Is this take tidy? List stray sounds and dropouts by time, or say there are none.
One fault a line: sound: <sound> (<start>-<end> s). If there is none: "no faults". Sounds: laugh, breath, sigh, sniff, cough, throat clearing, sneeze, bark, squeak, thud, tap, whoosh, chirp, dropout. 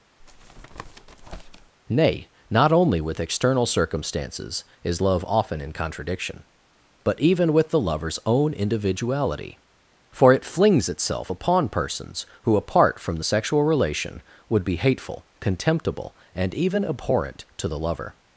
sound: tap (0.2-1.7 s)